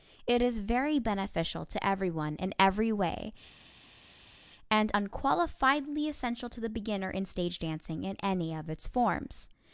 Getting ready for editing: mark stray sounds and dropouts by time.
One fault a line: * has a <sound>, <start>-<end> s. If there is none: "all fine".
all fine